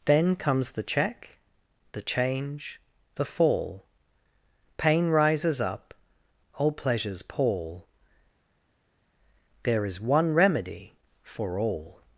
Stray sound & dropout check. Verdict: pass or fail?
pass